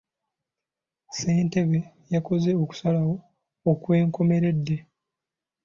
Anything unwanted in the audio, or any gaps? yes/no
no